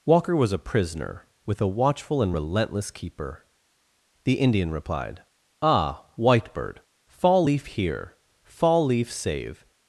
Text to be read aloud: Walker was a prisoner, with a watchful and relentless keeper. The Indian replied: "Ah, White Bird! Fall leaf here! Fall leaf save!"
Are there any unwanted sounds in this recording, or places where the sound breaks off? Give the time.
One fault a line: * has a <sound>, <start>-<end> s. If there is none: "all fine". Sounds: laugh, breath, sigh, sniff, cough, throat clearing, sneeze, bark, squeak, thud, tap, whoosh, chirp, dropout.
all fine